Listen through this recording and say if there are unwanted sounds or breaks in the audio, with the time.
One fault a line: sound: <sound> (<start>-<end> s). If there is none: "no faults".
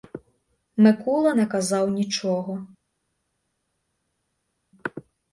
no faults